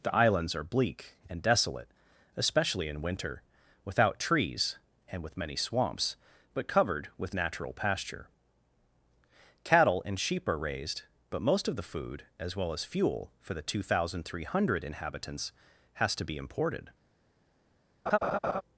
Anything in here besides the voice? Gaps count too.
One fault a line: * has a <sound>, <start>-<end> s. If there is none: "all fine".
* has a laugh, 18.1-18.6 s